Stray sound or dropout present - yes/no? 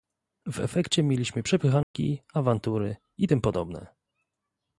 yes